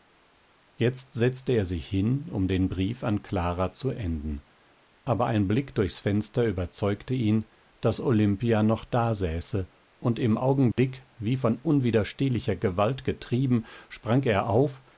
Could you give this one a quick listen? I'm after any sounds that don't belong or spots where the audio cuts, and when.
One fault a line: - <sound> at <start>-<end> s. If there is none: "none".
- dropout at 10.7-10.8 s